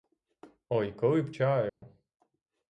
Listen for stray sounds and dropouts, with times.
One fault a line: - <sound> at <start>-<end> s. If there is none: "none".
- dropout at 1.7-1.8 s